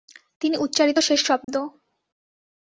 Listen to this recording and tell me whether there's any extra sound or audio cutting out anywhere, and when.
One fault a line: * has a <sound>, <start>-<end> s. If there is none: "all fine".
* has a dropout, 1.4-1.5 s